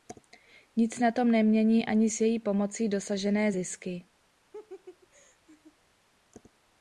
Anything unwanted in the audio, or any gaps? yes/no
yes